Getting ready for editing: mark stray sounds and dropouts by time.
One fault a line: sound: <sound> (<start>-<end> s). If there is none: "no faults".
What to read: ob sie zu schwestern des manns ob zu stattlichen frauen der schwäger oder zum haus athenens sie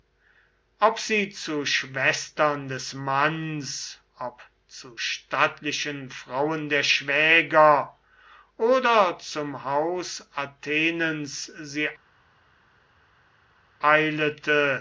no faults